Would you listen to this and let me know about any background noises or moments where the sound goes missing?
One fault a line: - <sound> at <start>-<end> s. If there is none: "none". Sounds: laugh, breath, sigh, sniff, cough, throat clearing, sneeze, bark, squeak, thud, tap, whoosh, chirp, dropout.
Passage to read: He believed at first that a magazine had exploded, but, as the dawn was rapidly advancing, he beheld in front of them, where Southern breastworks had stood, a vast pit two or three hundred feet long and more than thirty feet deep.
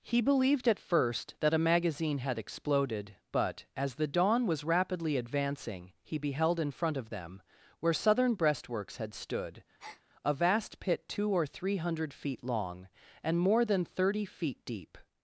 - breath at 9.8-10.0 s